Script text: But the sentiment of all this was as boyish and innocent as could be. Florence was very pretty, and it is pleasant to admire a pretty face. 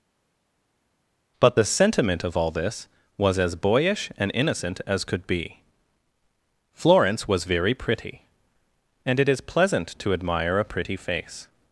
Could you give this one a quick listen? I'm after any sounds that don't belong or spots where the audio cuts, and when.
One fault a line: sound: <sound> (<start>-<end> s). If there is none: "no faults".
no faults